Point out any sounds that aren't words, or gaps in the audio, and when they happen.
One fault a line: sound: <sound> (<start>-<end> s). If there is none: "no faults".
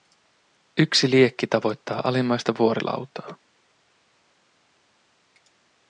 no faults